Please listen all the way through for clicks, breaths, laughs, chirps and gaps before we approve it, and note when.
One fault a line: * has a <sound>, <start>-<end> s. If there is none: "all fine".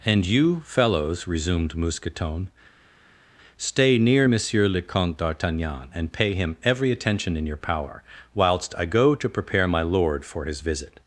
all fine